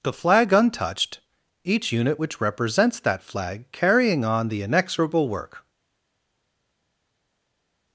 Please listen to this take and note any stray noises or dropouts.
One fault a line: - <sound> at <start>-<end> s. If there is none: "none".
none